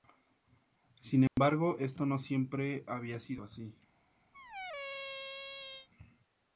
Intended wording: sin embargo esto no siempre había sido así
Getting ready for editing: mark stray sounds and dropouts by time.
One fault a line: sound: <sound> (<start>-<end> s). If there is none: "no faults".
sound: dropout (1.3-1.4 s)
sound: squeak (4.3-5.9 s)